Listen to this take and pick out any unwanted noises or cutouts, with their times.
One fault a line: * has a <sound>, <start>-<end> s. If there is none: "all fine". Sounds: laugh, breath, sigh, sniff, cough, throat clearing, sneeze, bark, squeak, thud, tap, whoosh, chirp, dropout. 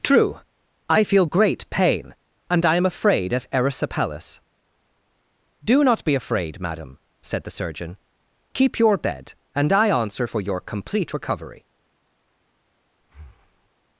* has a breath, 13.0-13.7 s